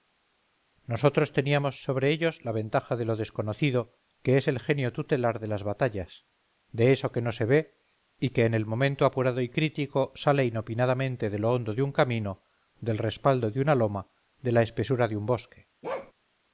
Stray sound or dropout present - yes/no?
yes